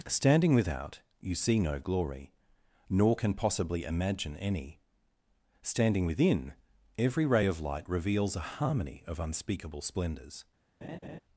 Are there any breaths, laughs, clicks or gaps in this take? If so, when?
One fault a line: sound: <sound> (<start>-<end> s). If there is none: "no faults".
sound: laugh (10.8-11.2 s)